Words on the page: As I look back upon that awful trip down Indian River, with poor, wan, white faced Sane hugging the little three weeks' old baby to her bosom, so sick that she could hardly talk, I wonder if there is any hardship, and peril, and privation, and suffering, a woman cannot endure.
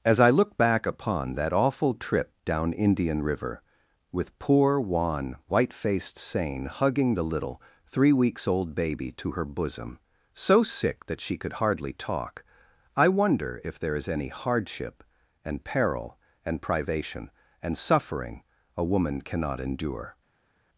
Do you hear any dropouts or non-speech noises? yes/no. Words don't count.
no